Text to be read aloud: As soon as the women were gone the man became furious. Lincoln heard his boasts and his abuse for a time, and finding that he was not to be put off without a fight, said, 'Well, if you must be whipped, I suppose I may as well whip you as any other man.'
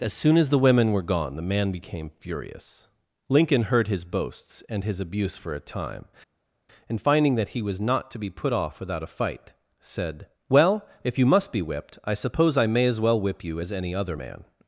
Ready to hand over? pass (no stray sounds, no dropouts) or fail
pass